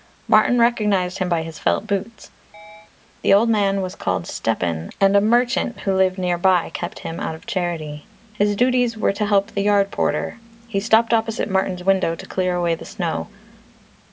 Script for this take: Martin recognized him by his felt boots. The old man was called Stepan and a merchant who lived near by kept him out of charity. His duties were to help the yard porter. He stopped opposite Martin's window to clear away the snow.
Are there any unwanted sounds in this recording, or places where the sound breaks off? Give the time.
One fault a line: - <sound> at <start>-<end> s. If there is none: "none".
- chirp at 2.5-2.9 s